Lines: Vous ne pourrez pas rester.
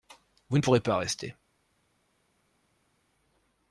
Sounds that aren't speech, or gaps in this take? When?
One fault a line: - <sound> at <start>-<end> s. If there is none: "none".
none